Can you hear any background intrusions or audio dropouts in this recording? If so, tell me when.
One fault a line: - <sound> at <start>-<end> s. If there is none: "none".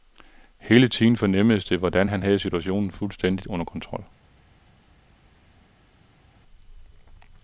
none